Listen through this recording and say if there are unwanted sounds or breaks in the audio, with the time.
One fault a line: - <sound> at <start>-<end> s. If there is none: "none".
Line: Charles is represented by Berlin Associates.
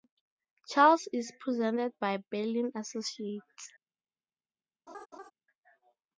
- laugh at 4.9-5.3 s